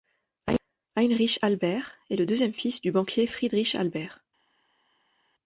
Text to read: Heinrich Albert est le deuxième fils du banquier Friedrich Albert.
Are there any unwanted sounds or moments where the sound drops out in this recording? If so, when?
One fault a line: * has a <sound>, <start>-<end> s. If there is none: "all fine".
all fine